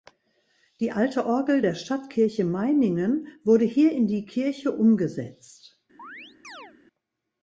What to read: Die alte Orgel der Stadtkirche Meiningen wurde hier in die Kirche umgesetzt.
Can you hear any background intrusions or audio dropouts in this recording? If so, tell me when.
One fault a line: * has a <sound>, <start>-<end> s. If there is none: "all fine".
* has a chirp, 6.0-6.7 s